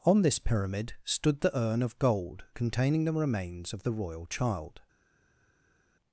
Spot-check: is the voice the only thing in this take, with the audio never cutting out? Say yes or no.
yes